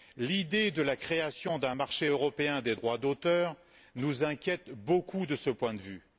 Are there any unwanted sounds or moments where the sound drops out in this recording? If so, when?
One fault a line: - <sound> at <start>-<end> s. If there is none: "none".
none